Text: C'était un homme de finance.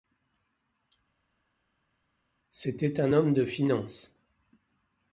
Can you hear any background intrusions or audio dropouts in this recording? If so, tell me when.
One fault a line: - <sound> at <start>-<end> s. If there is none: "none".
none